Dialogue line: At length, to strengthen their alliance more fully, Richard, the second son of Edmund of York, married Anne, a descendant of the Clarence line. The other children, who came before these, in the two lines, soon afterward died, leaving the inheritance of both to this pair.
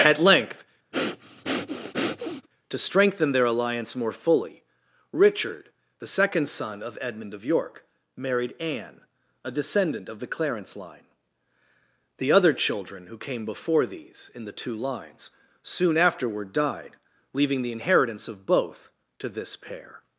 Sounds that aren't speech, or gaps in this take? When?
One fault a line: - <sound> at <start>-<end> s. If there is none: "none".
- breath at 0.9-2.5 s